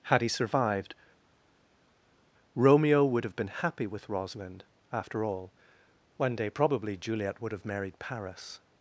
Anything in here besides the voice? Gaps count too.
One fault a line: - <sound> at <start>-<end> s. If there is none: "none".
none